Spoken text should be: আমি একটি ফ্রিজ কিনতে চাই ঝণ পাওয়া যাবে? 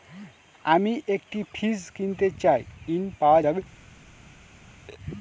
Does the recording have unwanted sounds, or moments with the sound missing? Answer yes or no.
no